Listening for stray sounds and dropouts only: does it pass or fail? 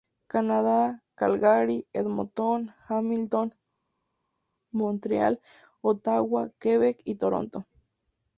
pass